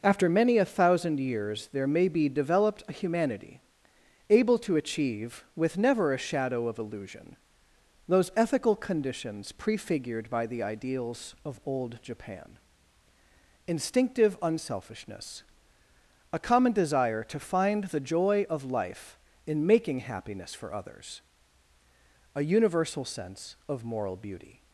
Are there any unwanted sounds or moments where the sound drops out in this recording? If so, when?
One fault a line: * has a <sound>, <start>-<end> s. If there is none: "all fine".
all fine